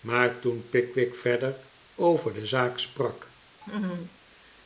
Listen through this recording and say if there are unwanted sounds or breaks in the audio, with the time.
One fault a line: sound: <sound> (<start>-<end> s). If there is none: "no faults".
sound: laugh (3.6-4.2 s)